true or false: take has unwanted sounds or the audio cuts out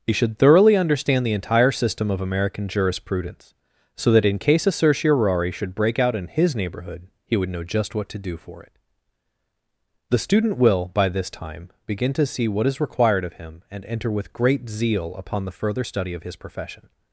false